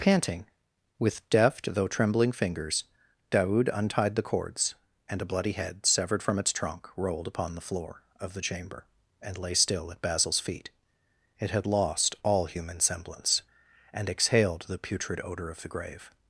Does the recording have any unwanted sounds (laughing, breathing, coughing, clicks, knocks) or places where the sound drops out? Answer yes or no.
no